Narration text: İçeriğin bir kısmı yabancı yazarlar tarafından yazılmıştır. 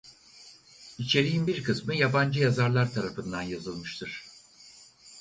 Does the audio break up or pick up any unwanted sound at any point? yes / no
no